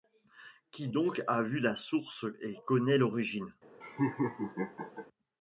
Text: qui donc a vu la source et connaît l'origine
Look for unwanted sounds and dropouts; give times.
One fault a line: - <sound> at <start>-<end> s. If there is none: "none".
- laugh at 3.8-5.1 s